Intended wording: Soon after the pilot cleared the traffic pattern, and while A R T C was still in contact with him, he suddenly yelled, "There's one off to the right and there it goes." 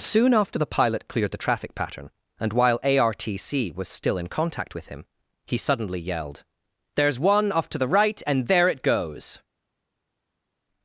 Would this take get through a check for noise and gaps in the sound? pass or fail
pass